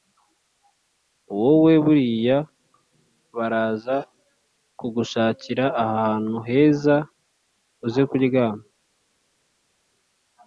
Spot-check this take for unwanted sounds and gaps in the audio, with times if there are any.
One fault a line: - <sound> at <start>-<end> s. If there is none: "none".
none